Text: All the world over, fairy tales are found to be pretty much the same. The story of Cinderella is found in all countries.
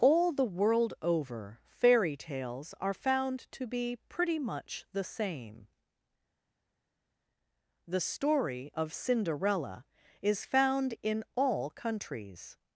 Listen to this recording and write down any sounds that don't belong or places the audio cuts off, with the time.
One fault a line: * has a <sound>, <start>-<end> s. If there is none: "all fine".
all fine